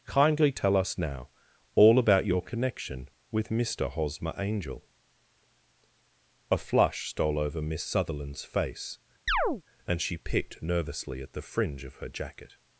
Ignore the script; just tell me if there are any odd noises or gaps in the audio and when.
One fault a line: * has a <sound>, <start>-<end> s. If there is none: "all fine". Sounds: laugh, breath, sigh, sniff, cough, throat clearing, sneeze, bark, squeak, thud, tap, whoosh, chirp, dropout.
* has a chirp, 9.3-9.6 s